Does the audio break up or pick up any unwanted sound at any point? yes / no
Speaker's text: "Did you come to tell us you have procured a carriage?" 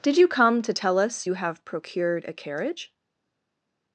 no